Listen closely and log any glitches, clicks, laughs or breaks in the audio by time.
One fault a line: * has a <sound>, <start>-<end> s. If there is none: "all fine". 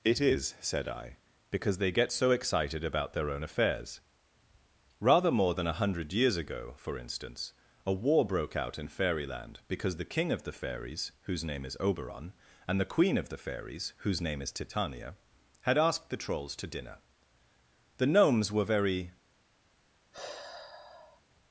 * has a sigh, 20.1-21.2 s